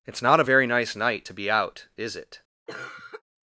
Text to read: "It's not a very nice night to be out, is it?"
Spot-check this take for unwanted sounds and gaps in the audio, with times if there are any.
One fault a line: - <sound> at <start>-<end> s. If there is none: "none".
- cough at 2.7-3.2 s